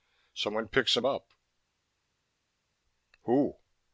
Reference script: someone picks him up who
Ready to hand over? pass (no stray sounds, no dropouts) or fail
pass